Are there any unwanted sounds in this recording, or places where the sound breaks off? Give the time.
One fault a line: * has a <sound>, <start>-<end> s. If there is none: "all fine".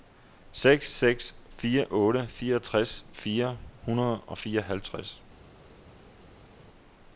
all fine